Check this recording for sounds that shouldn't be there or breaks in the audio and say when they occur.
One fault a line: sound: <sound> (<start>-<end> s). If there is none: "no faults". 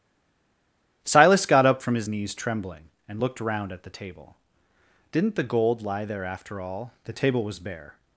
no faults